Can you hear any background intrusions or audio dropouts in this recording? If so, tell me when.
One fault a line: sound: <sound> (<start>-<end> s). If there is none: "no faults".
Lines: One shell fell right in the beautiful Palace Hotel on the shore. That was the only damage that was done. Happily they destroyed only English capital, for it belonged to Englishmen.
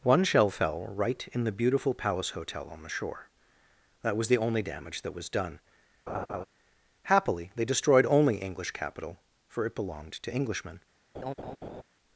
sound: laugh (6.1-6.4 s)
sound: laugh (11.1-11.8 s)